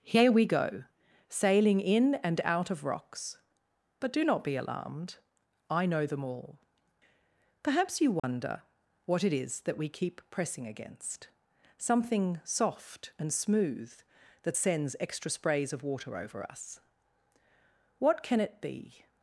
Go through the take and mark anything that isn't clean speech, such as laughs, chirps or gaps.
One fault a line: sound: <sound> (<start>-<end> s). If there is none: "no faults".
sound: dropout (8.2-8.2 s)